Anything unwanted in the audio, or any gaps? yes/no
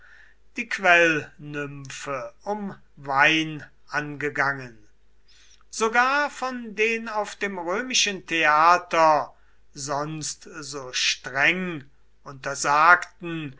no